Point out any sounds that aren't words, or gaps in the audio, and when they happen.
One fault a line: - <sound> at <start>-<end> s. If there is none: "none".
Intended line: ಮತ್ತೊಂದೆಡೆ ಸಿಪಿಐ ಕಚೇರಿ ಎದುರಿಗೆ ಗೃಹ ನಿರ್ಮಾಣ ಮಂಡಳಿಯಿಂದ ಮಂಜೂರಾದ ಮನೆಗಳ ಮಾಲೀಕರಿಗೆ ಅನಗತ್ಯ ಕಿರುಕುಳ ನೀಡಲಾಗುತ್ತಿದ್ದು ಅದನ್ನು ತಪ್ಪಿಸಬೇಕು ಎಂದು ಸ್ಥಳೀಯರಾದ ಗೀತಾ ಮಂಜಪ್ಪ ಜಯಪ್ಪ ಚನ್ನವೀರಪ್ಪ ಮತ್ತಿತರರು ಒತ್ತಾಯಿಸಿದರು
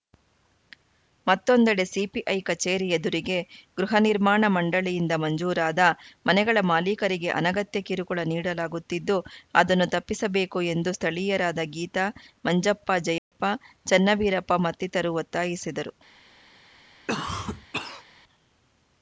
- dropout at 13.2-13.3 s
- cough at 17.1-18.0 s